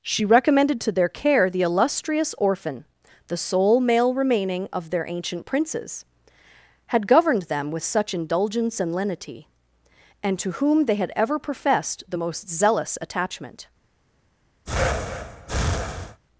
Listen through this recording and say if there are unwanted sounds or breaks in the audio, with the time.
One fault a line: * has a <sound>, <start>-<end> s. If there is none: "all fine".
* has a breath, 14.7-16.2 s